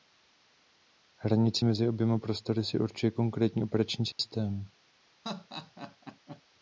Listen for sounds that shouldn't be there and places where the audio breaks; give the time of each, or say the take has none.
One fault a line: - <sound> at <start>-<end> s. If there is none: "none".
- dropout at 4.1-4.2 s
- laugh at 5.2-6.4 s